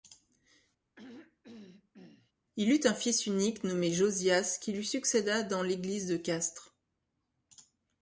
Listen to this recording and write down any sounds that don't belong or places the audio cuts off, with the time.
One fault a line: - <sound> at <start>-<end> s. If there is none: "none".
- throat clearing at 1.0-2.3 s